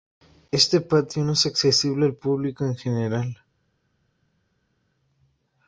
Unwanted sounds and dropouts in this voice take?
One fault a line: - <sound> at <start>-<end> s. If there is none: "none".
none